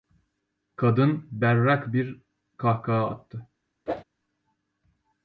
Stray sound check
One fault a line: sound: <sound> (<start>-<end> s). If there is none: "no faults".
sound: whoosh (3.9-4.0 s)